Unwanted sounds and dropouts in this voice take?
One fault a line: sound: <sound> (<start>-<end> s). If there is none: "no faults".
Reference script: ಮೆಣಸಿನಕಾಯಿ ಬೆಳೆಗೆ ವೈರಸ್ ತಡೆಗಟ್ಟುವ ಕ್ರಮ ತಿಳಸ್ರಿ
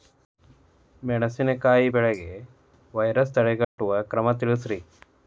sound: dropout (3.6-3.8 s)